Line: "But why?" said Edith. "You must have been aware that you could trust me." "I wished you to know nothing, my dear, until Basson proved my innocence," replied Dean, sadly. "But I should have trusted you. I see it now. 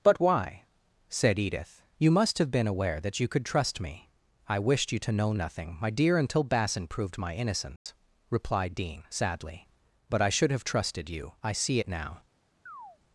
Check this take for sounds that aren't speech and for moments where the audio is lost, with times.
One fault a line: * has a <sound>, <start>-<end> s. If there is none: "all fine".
* has a dropout, 7.8-7.9 s
* has a chirp, 12.7-13.0 s